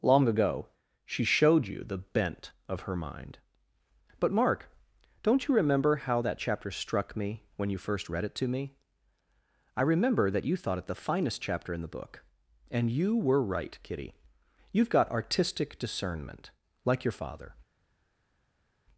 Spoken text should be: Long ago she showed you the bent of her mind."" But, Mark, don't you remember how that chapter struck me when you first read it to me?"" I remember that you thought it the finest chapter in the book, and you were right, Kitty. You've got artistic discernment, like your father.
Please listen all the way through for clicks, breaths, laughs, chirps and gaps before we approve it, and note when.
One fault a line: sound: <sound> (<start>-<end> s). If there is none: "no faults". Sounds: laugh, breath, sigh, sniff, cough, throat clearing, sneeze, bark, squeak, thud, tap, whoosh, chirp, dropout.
no faults